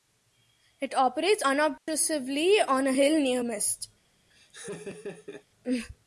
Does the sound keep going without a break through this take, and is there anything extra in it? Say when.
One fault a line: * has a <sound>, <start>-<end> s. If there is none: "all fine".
* has a dropout, 1.8-1.9 s
* has a laugh, 4.3-5.5 s